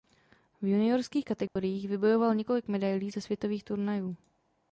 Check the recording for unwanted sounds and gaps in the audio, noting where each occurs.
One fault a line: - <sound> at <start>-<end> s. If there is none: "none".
- dropout at 1.5-1.6 s